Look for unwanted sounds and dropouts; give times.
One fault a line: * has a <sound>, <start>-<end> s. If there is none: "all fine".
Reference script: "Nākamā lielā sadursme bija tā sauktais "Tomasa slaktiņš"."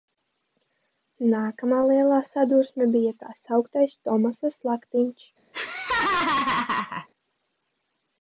* has a laugh, 5.5-7.1 s